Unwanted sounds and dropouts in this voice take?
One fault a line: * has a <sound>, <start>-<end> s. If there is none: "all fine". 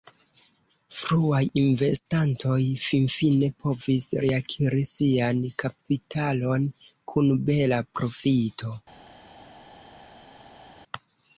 all fine